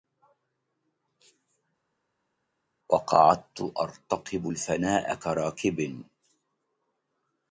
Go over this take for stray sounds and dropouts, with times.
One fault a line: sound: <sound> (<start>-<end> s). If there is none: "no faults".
no faults